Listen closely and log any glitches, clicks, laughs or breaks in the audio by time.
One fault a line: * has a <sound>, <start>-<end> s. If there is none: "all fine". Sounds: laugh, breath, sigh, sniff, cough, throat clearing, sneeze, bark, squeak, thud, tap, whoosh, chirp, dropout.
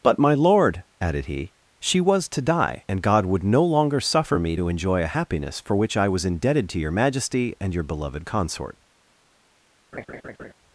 * has a laugh, 9.9-10.5 s